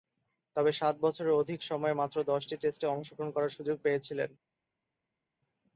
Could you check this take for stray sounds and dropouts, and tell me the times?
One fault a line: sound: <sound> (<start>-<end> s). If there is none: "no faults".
no faults